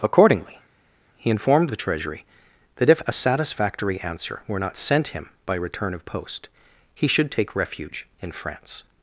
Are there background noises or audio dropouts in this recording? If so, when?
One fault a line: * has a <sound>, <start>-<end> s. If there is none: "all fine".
all fine